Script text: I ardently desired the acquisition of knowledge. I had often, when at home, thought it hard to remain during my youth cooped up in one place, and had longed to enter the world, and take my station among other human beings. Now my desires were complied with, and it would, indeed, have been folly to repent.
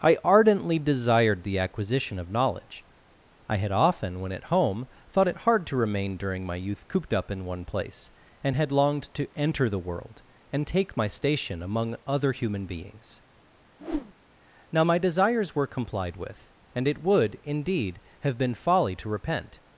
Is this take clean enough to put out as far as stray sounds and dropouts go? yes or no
no